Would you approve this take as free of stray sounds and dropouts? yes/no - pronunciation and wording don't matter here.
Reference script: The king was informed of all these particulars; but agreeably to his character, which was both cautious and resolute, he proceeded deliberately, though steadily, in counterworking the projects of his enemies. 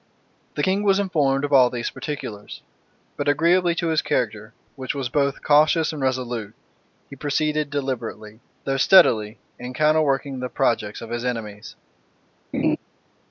no